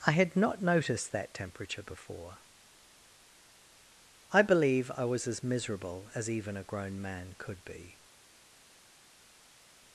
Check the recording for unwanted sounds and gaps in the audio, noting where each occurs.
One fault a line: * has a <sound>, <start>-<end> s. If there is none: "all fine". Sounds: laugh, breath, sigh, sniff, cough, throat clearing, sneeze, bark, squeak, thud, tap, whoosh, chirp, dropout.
all fine